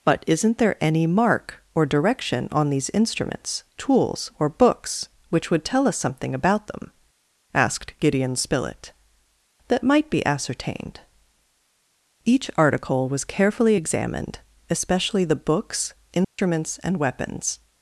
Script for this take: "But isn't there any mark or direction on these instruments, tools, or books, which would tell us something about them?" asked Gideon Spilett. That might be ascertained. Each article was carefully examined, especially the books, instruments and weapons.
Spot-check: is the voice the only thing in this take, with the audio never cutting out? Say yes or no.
no